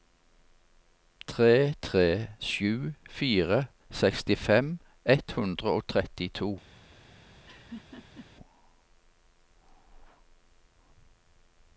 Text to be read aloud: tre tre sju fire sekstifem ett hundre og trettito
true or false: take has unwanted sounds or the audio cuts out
true